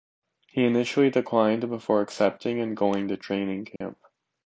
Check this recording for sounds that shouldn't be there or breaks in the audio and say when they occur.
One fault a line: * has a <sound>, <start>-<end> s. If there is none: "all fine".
* has a dropout, 3.8-3.8 s